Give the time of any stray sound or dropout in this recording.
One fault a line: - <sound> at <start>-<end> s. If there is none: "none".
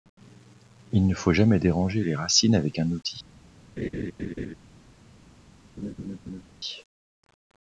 - laugh at 3.8-4.5 s
- laugh at 5.8-6.4 s